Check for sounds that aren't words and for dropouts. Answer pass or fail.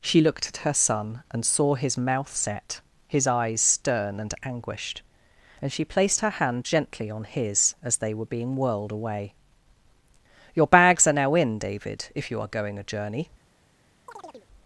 fail